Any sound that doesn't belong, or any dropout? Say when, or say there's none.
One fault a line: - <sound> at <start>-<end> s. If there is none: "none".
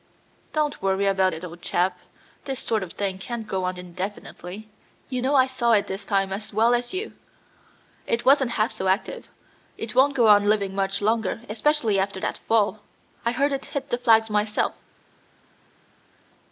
none